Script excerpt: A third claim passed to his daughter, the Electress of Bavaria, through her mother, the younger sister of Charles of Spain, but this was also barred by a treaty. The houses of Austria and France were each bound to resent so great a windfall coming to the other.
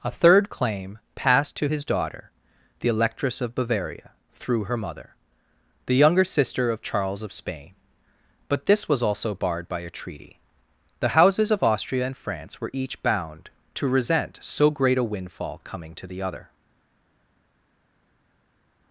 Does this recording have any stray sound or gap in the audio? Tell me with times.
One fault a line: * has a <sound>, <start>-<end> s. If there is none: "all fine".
all fine